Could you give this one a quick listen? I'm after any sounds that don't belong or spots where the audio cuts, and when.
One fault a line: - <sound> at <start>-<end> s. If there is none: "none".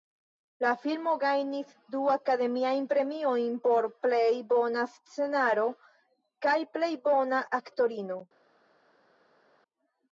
none